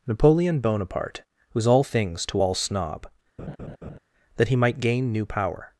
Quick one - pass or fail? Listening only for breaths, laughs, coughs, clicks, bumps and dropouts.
fail